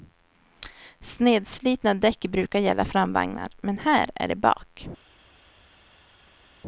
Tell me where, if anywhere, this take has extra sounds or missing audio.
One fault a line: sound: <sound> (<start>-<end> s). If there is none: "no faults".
no faults